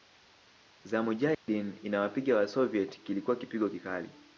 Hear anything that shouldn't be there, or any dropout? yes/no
yes